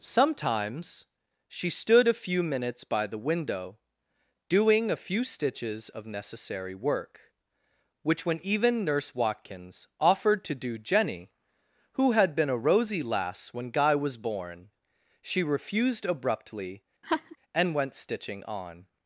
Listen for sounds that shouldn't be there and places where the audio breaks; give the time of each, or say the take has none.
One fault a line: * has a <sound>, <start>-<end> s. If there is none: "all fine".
* has a laugh, 17.0-17.4 s